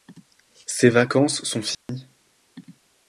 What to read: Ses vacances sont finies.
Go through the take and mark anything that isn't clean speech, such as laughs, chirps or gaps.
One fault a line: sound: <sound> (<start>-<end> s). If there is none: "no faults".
sound: dropout (1.7-1.9 s)